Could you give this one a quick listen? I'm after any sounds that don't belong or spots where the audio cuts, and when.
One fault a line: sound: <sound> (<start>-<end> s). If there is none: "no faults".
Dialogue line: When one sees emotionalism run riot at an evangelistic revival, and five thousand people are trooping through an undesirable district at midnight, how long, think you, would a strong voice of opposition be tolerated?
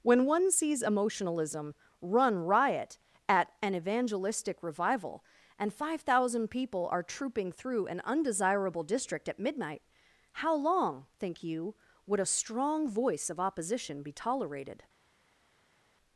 no faults